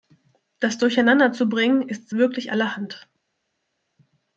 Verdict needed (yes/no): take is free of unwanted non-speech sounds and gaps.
yes